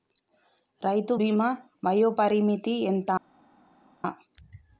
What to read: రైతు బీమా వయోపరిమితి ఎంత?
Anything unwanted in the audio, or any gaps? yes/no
no